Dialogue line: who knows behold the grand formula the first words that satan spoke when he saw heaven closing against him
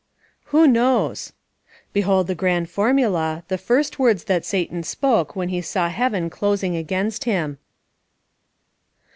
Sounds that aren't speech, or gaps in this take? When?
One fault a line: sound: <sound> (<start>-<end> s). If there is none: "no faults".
no faults